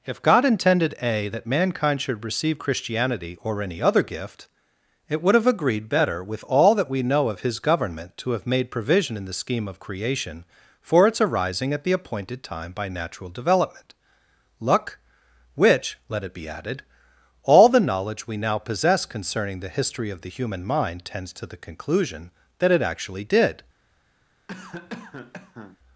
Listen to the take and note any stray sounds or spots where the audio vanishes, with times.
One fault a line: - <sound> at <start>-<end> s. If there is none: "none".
- cough at 24.5-25.8 s